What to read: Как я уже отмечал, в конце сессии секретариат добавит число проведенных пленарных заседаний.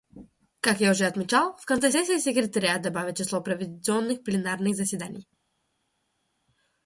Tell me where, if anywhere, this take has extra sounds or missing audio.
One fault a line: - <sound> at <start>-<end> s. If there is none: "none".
none